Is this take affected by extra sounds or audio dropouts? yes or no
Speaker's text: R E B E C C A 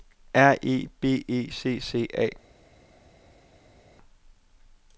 no